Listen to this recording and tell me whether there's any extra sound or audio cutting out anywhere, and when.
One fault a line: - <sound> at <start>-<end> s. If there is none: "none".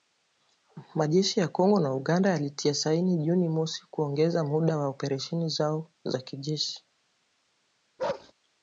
- bark at 8.0-8.3 s